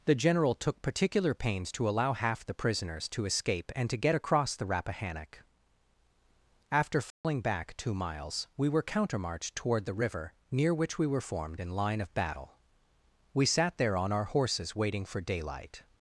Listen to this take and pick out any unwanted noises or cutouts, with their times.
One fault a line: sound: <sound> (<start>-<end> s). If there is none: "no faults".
sound: dropout (7.1-7.2 s)